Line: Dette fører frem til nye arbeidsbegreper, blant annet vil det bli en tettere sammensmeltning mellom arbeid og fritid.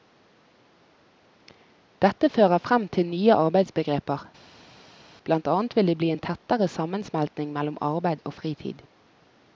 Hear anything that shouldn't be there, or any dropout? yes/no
no